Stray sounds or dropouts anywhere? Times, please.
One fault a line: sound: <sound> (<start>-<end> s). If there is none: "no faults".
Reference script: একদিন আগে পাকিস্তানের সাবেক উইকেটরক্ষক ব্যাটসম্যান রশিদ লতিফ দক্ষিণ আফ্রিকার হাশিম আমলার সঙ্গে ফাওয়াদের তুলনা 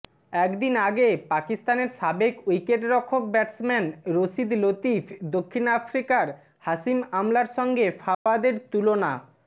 sound: dropout (8.1-8.3 s)